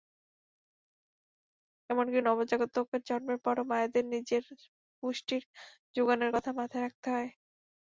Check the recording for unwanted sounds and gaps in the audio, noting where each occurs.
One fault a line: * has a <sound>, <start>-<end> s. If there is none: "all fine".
all fine